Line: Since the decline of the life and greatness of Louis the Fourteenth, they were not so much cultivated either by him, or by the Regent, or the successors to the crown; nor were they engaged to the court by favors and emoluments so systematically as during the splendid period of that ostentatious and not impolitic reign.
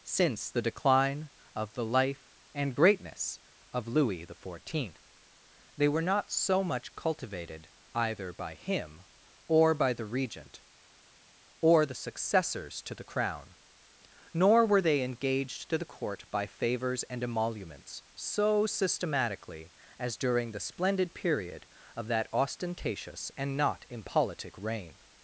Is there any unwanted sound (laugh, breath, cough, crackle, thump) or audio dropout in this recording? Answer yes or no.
no